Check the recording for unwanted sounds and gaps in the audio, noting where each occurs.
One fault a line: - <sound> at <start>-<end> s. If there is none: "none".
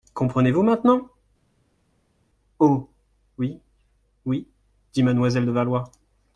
none